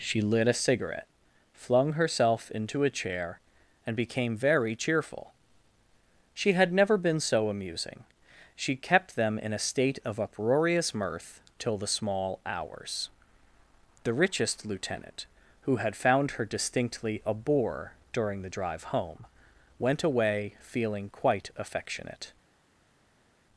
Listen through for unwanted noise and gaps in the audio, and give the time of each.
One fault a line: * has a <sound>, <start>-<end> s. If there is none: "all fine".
all fine